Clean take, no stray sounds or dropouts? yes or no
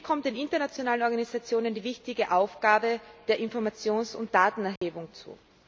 no